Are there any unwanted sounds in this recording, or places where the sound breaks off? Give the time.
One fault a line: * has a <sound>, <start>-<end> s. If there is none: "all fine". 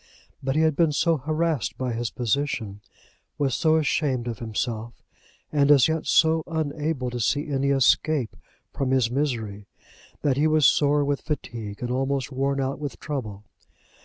all fine